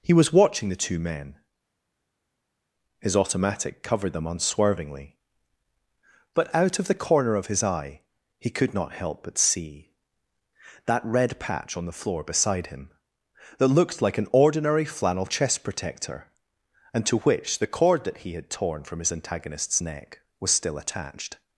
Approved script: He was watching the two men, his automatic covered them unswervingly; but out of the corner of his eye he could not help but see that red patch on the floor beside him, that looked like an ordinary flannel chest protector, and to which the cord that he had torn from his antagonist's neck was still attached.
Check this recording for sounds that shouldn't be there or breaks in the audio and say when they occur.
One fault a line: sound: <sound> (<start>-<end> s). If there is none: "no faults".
no faults